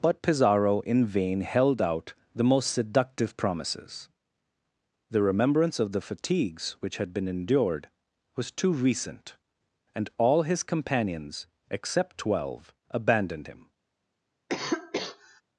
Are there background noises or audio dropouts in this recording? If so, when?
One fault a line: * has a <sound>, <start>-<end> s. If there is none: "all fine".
* has a cough, 14.5-15.4 s